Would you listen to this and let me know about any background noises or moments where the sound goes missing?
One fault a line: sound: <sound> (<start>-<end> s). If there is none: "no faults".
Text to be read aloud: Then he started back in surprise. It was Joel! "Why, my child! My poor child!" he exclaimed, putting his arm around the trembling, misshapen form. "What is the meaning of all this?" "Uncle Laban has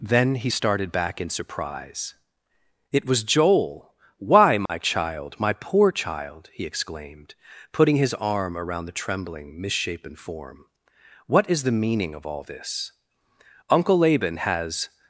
sound: dropout (4.7-4.7 s)